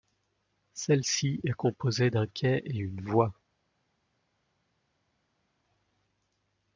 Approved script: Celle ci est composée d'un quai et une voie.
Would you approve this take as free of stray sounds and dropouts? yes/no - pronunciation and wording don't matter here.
yes